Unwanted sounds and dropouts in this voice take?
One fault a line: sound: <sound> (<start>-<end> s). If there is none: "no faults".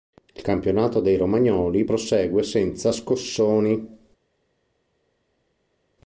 no faults